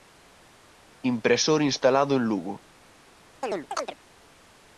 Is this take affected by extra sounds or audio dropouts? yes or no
yes